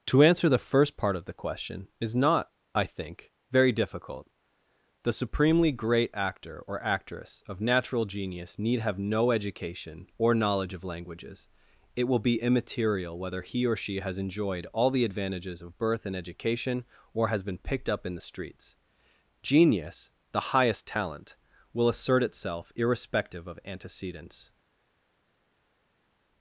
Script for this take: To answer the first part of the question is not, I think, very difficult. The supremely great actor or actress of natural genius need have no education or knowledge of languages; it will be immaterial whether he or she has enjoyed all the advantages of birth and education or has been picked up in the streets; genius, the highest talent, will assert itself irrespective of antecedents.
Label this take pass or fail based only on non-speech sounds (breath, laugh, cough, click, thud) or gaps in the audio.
pass